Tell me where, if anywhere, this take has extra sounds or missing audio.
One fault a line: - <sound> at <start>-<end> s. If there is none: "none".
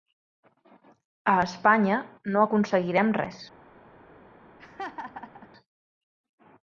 - laugh at 4.6-5.5 s